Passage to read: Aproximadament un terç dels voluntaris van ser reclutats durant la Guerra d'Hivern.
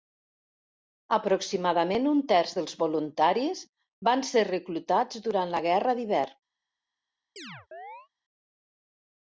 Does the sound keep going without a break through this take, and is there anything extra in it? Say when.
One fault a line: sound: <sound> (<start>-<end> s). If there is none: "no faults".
sound: chirp (7.4-8.1 s)